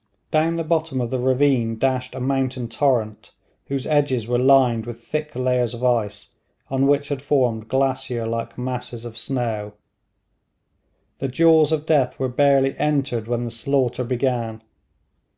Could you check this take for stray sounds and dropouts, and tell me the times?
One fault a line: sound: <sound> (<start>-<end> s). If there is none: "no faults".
no faults